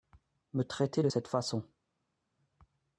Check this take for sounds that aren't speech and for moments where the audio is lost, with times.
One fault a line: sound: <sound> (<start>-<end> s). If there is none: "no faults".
no faults